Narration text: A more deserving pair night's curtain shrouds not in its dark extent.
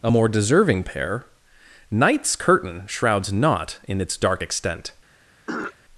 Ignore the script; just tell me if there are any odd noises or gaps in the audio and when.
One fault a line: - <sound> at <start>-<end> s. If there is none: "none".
- throat clearing at 5.5-5.8 s